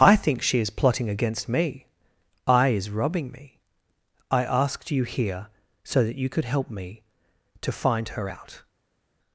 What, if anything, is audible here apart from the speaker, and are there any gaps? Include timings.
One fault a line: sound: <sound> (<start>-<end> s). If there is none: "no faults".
no faults